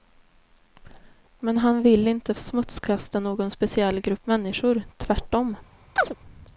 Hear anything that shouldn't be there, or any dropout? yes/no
yes